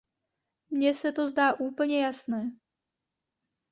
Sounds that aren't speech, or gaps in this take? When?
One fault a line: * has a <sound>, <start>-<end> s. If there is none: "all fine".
all fine